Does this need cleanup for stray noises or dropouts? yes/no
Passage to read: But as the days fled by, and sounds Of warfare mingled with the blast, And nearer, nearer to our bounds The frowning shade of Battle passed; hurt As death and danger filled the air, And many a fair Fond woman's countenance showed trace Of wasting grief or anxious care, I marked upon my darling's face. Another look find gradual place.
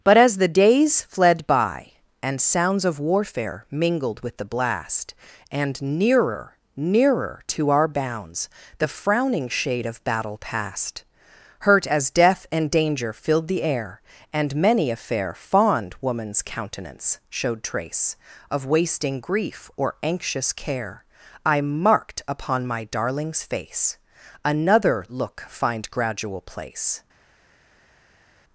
no